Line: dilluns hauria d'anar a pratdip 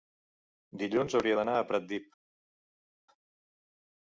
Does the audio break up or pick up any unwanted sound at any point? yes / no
no